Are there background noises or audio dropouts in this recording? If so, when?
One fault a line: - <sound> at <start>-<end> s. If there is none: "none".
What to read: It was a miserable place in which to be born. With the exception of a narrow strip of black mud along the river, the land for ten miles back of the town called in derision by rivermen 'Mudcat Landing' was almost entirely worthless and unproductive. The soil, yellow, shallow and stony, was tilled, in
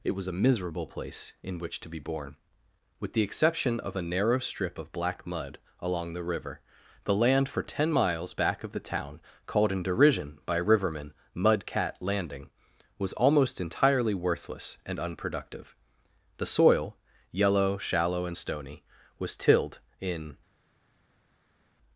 none